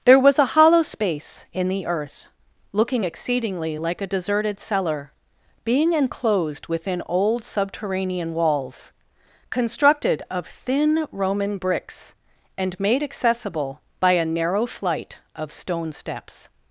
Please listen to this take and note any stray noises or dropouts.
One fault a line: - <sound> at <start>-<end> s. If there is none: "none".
none